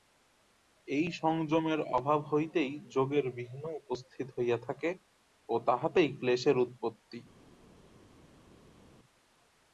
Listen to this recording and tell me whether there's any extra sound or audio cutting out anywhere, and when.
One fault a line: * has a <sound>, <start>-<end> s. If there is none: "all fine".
all fine